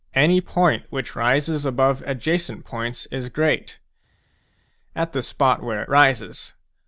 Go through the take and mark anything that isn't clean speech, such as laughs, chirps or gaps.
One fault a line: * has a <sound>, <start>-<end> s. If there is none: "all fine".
all fine